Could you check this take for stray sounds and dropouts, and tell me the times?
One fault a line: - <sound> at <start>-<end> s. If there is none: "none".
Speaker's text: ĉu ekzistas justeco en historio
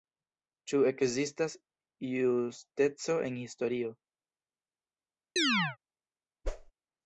- chirp at 5.4-5.8 s
- whoosh at 6.4-6.7 s